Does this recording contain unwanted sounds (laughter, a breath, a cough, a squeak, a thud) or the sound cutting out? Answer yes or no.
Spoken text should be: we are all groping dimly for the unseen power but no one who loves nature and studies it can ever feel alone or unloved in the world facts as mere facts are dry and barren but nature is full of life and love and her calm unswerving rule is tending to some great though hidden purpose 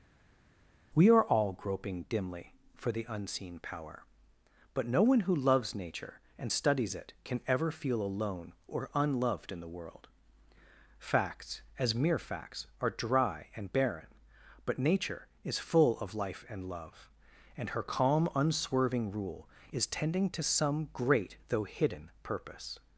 no